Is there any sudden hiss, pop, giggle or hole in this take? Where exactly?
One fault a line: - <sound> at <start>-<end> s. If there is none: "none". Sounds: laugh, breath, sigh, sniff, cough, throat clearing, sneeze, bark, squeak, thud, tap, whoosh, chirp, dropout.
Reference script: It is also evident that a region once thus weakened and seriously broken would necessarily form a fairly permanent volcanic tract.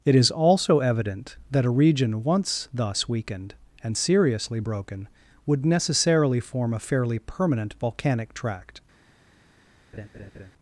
- laugh at 9.9-10.5 s